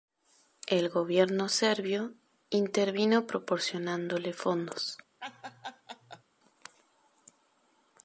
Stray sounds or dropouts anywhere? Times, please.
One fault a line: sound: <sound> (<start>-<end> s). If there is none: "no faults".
sound: laugh (5.2-6.2 s)